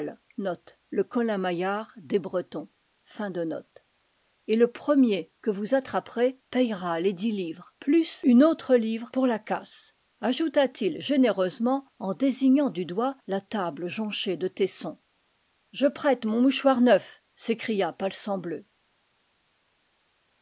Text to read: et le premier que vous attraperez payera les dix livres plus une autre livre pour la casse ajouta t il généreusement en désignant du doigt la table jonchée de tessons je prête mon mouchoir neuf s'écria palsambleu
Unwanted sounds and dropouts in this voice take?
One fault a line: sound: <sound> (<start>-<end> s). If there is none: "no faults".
no faults